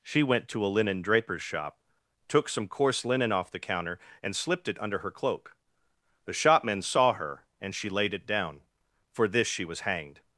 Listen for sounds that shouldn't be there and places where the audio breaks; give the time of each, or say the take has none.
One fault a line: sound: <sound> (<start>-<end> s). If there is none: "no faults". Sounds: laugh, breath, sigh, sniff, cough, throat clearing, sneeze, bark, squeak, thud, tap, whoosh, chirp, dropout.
no faults